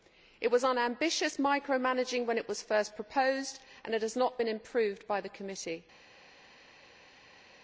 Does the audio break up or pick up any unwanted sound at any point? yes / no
no